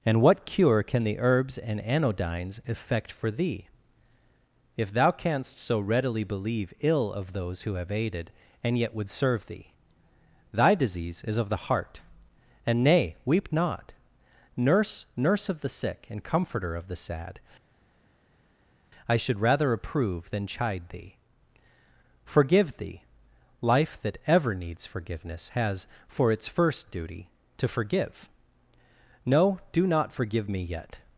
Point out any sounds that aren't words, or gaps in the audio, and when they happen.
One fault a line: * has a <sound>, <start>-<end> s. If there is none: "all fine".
all fine